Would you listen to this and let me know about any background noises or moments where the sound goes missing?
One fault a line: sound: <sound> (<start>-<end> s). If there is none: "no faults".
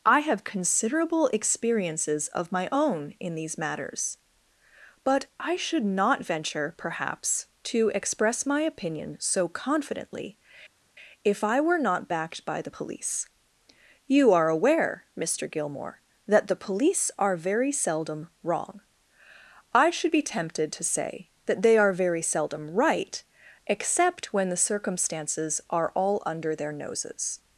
no faults